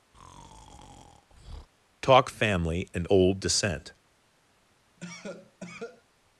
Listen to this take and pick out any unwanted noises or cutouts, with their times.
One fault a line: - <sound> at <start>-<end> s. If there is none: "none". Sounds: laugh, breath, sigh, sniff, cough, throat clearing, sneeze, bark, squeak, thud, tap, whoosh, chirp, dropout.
- breath at 0.1-1.7 s
- cough at 5.0-6.0 s